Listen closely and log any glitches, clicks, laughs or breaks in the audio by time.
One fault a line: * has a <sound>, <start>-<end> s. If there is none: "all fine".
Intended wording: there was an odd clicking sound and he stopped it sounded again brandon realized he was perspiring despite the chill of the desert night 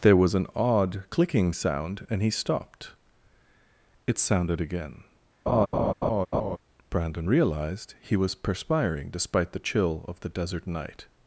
* has a laugh, 5.5-6.6 s